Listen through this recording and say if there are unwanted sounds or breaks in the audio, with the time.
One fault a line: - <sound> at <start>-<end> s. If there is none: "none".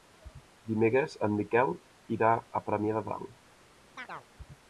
- chirp at 4.0-4.3 s